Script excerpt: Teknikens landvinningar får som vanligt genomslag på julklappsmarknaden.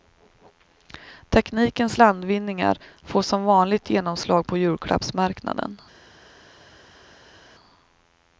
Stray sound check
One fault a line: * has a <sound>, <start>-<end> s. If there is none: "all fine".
all fine